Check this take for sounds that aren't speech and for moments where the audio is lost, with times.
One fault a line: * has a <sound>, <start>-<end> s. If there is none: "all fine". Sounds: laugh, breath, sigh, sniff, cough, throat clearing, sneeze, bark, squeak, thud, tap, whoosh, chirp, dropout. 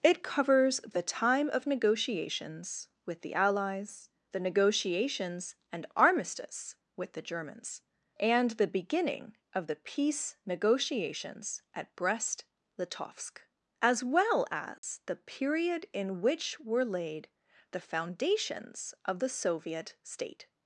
* has a dropout, 14.8-14.8 s